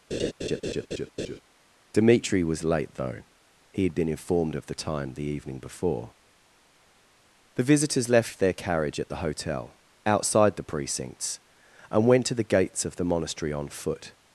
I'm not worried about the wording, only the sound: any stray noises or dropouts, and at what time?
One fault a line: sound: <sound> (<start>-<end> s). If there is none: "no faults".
sound: laugh (0.1-1.4 s)